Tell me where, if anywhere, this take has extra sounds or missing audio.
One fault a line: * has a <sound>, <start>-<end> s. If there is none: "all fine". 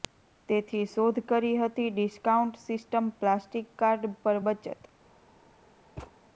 * has a thud, 6.0-6.1 s